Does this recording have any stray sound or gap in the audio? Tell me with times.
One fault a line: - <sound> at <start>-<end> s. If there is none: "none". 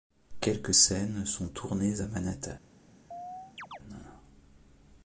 - chirp at 3.1-3.8 s